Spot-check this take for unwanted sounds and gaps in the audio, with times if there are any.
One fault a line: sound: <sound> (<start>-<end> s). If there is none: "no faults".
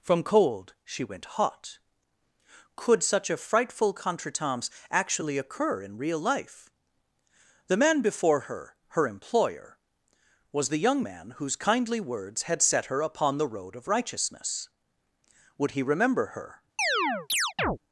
sound: chirp (16.8-17.8 s)